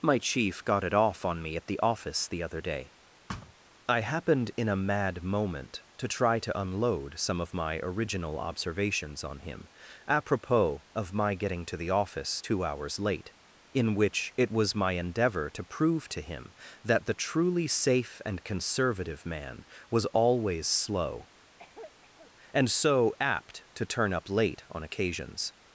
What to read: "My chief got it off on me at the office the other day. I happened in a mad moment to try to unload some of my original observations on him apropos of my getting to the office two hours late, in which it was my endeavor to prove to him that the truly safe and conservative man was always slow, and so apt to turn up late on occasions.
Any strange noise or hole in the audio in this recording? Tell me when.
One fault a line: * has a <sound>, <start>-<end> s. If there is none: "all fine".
* has a thud, 3.3-3.5 s
* has a cough, 21.6-22.3 s